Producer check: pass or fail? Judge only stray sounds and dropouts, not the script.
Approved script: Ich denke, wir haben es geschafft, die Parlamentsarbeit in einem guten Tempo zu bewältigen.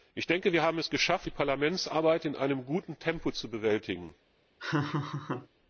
fail